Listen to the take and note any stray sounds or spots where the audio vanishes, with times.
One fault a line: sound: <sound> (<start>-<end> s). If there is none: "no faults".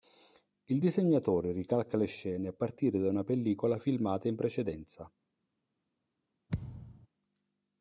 sound: thud (6.5-7.1 s)